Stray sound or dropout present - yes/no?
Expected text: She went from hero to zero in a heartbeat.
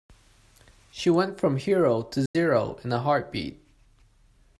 yes